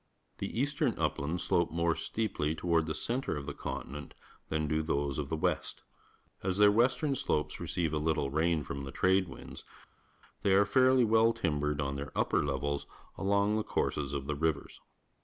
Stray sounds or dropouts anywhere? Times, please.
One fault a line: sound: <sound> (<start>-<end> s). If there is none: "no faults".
no faults